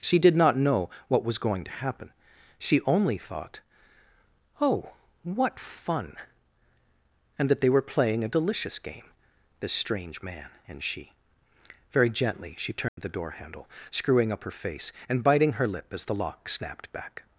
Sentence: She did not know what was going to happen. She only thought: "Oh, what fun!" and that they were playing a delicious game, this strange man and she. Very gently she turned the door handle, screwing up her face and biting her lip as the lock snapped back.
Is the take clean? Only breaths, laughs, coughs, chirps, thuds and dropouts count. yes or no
no